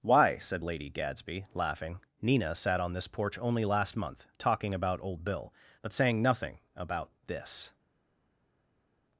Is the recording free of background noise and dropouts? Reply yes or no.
yes